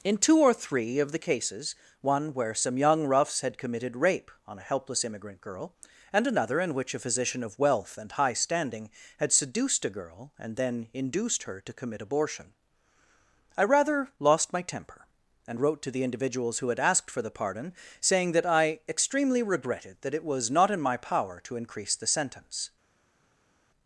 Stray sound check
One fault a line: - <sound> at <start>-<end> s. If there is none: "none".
none